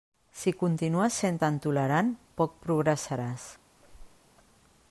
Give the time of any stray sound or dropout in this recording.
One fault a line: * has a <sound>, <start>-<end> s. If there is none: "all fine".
* has a squeak, 3.8-4.3 s